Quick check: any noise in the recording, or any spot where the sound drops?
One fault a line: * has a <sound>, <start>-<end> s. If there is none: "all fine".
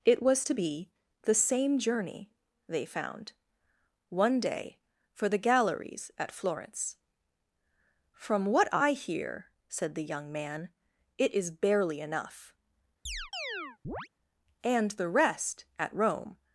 * has a chirp, 13.1-14.1 s